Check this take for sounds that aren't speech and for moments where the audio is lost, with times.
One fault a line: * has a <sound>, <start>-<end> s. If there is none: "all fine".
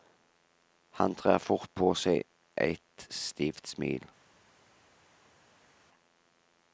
all fine